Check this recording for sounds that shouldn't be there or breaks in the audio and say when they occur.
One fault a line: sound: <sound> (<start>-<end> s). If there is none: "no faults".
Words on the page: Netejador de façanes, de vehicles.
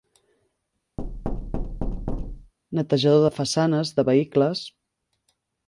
sound: thud (1.0-2.5 s)